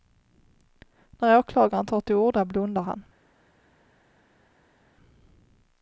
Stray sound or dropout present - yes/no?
no